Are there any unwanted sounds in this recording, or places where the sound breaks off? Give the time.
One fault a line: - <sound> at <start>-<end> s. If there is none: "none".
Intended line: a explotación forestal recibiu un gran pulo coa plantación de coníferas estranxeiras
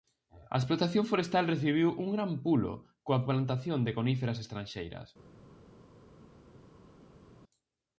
none